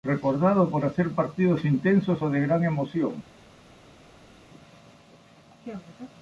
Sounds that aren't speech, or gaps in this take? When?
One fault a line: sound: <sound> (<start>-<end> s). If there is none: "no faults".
no faults